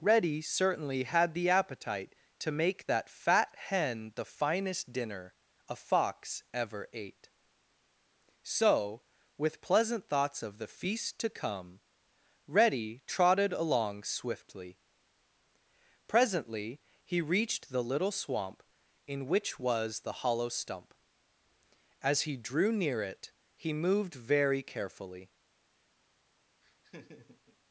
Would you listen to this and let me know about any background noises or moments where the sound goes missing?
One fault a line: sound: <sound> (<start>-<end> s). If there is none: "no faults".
sound: laugh (26.6-27.6 s)